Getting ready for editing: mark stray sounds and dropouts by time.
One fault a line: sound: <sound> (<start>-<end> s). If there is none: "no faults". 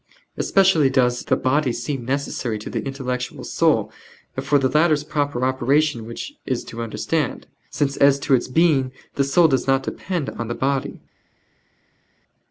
no faults